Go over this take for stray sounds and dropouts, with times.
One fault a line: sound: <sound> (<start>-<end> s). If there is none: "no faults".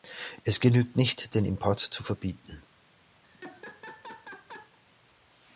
sound: laugh (3.2-4.8 s)